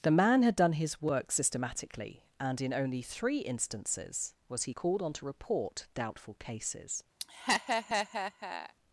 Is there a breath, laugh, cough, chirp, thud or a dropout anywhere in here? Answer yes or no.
yes